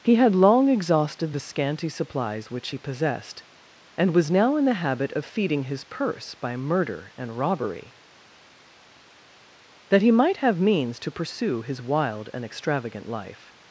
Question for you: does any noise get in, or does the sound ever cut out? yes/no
no